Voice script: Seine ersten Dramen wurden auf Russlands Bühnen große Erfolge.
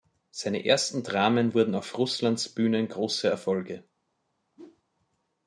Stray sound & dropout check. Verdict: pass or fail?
fail